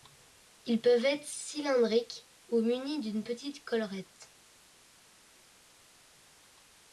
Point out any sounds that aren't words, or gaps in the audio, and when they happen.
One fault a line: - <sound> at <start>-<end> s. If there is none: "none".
none